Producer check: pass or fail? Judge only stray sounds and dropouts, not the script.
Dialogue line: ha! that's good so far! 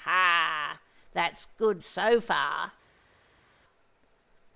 pass